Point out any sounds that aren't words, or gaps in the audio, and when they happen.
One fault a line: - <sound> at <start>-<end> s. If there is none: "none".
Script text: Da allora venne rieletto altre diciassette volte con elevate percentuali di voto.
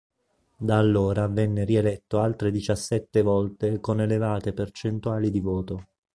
none